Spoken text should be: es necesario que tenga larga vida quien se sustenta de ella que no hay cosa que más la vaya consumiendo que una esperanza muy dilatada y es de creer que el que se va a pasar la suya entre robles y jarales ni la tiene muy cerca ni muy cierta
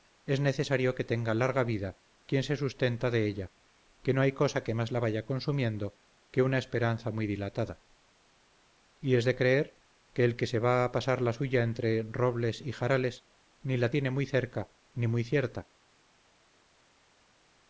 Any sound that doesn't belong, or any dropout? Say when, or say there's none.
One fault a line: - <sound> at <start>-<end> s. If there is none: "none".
none